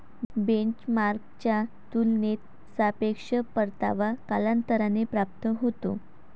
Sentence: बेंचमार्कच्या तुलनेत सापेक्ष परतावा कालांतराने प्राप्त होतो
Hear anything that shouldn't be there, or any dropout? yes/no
no